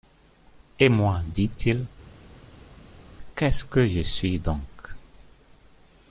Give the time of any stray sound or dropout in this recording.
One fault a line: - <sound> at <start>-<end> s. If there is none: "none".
none